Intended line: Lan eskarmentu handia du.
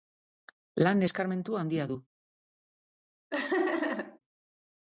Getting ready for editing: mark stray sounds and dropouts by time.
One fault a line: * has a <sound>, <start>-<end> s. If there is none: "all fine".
* has a laugh, 3.3-4.2 s